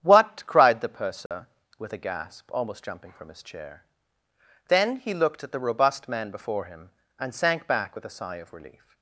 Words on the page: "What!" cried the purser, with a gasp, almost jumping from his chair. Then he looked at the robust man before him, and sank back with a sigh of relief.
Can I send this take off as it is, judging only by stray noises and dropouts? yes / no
no